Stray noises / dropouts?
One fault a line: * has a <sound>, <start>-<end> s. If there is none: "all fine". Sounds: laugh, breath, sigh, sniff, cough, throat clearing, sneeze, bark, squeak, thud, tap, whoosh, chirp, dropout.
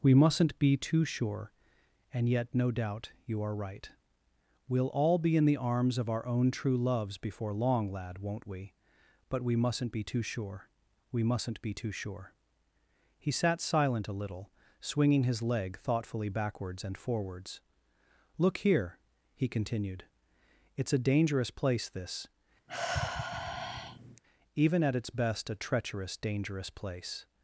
* has a sigh, 22.7-24.2 s